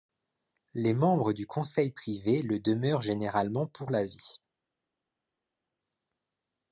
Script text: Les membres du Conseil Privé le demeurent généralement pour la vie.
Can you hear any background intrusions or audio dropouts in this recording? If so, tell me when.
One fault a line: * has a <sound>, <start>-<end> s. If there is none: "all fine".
all fine